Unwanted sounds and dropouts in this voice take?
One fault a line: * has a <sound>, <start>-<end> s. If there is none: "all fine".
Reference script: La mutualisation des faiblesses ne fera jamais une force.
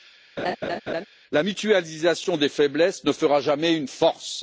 * has a laugh, 0.4-1.0 s